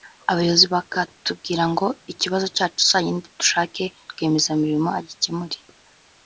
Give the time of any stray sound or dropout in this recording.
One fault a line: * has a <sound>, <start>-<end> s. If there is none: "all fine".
all fine